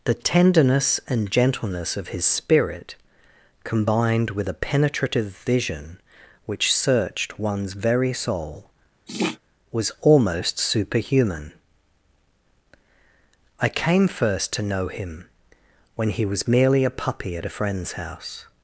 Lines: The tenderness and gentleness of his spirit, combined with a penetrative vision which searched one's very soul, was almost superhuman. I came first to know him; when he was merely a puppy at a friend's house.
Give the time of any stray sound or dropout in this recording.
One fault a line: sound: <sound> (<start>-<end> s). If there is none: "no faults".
sound: sniff (9.1-9.4 s)